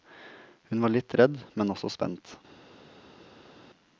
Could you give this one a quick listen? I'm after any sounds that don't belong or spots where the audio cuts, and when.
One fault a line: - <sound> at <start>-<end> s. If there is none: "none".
none